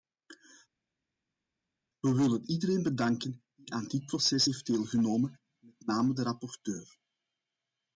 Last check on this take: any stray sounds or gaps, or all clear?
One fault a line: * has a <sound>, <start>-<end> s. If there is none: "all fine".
all fine